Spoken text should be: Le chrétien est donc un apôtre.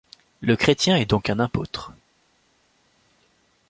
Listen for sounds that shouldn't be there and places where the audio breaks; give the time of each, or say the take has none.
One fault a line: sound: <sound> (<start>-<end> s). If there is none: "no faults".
no faults